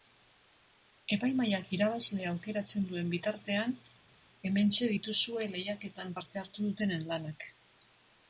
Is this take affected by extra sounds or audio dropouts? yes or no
no